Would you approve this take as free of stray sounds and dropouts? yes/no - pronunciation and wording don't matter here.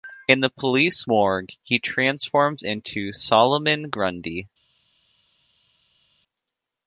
yes